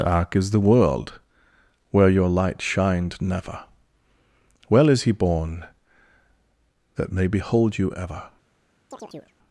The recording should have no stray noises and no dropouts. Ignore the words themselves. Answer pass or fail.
fail